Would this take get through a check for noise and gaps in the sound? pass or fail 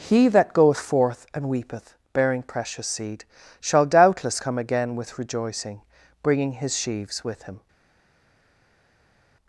pass